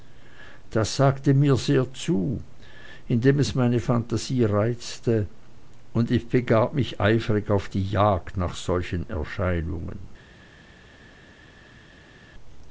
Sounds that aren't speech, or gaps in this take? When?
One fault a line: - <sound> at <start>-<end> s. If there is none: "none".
none